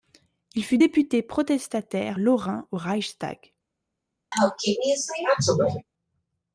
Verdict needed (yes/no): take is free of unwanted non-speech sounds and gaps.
no